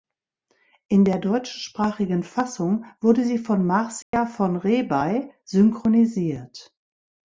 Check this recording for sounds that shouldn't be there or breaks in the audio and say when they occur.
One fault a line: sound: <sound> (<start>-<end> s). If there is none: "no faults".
sound: dropout (4.0-4.1 s)